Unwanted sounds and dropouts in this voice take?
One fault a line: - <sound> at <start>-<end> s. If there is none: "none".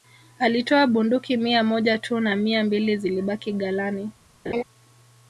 - laugh at 4.5-4.6 s